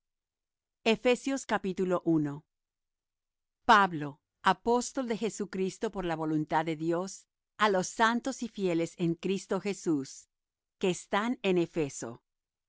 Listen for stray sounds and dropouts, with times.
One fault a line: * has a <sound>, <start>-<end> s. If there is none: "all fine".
all fine